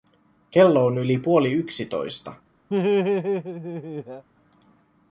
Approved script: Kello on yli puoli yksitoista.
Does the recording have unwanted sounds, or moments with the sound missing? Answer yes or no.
yes